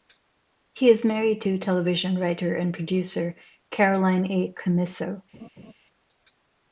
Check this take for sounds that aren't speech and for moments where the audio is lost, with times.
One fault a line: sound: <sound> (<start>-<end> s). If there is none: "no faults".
sound: laugh (5.3-5.7 s)